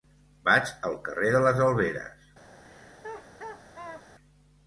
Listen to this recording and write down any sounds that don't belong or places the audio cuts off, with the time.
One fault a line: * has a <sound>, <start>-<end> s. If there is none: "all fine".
* has a laugh, 2.6-4.1 s